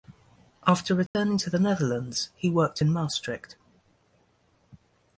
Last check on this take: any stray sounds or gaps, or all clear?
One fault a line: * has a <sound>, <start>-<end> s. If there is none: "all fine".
* has a dropout, 1.1-1.1 s